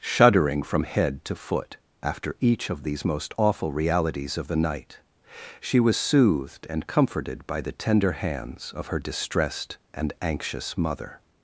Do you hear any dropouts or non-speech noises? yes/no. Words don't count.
no